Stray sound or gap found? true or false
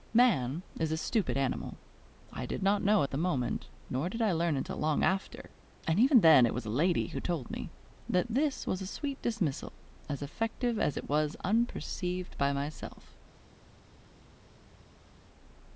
false